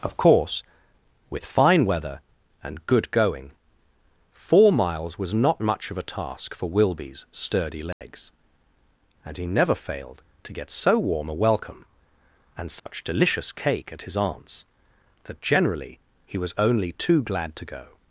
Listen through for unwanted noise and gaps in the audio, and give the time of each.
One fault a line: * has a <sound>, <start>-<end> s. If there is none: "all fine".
* has a dropout, 7.9-8.0 s
* has a dropout, 12.8-12.9 s